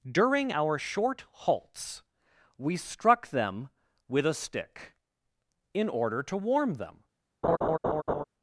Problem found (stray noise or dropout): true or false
true